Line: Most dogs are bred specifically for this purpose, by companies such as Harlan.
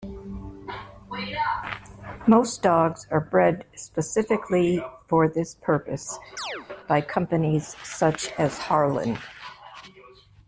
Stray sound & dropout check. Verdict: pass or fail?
fail